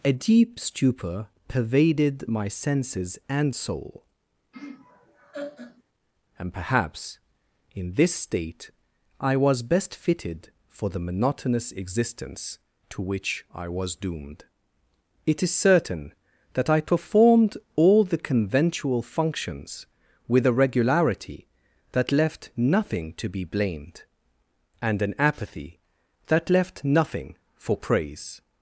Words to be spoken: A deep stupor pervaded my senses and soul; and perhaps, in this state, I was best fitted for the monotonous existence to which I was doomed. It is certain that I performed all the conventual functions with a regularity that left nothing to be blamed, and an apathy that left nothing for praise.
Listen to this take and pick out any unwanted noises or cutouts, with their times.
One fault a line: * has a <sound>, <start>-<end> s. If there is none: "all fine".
* has a laugh, 4.5-5.8 s